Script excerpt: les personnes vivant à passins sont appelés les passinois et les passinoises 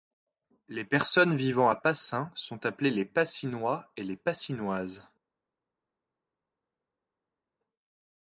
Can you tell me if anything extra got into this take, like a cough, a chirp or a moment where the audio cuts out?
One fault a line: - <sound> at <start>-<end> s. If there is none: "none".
none